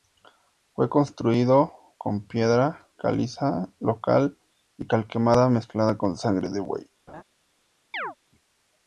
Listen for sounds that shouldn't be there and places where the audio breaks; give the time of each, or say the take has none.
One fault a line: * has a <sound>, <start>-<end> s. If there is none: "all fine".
* has a laugh, 7.1-7.2 s
* has a chirp, 7.9-8.2 s